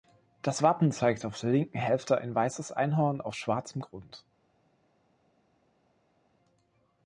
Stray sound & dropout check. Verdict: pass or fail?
pass